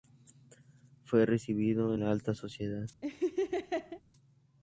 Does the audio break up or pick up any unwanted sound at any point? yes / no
yes